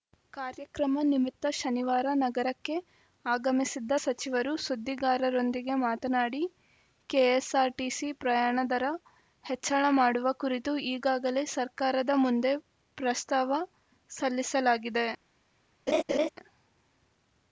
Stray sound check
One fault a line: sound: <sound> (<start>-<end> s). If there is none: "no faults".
sound: laugh (15.9-16.3 s)